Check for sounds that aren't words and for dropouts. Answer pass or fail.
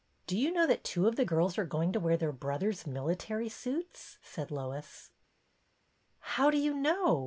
pass